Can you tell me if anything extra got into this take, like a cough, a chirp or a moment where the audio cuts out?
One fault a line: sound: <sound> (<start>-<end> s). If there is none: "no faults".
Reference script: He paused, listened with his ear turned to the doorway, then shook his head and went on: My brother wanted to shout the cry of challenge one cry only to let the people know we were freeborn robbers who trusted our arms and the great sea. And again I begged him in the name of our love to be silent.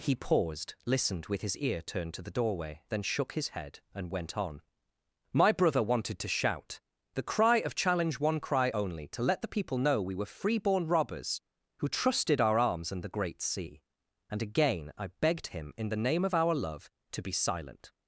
no faults